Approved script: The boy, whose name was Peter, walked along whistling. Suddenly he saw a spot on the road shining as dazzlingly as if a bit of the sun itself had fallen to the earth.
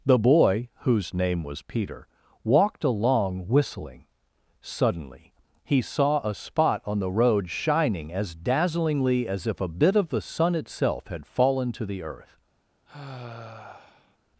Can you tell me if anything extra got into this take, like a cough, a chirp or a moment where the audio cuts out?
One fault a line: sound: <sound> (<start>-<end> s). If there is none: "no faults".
sound: sigh (12.9-14.2 s)